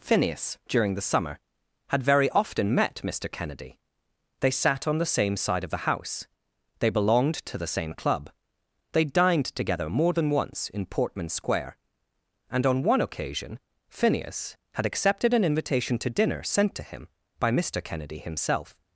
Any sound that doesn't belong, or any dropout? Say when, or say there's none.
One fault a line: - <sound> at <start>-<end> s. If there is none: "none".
none